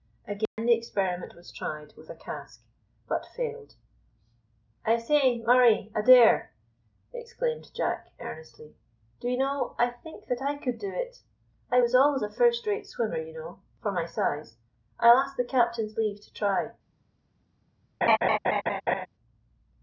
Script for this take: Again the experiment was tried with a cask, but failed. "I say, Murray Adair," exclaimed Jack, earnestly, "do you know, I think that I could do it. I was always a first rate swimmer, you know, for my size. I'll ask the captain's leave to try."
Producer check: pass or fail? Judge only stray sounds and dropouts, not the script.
fail